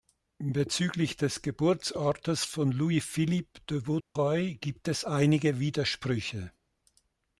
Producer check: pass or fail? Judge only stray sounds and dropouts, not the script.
fail